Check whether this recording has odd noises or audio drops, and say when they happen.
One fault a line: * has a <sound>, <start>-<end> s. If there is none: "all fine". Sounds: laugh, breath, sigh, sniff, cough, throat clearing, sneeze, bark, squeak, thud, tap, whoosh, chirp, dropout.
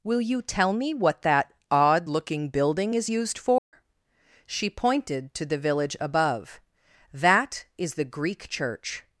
* has a dropout, 3.6-3.7 s